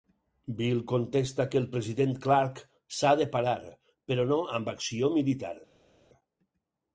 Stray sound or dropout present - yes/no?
no